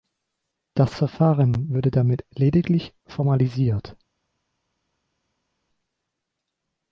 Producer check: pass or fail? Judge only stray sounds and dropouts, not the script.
pass